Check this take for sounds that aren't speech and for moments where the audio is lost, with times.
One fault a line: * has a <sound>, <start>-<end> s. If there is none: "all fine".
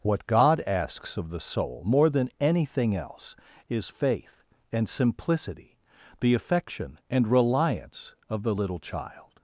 all fine